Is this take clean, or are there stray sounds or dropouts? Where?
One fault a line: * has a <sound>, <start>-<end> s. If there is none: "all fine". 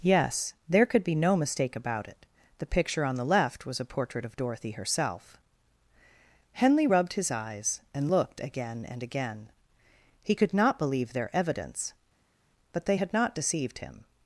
all fine